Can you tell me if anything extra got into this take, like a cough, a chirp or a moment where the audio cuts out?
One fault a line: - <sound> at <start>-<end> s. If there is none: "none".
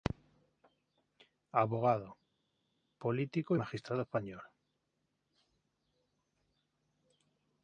none